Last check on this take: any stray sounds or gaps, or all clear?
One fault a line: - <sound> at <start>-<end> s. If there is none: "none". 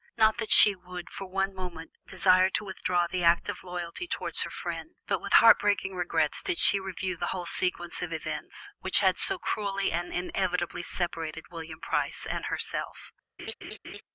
- laugh at 13.4-14.0 s